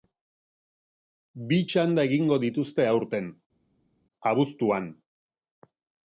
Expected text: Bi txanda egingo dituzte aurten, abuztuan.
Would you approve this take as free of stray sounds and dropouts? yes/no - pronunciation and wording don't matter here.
yes